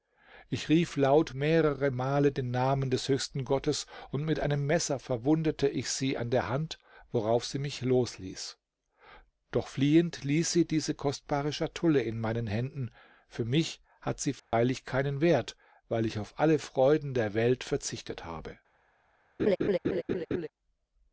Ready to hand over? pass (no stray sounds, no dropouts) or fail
fail